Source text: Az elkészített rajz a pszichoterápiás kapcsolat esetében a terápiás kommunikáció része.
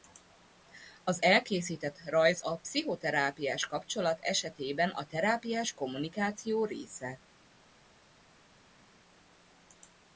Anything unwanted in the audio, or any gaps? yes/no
no